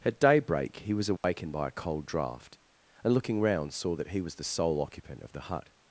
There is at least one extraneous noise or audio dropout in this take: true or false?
true